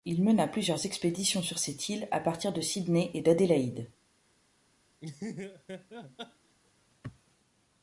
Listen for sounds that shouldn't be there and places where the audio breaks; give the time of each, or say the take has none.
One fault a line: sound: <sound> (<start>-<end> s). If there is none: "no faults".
sound: laugh (5.0-6.5 s)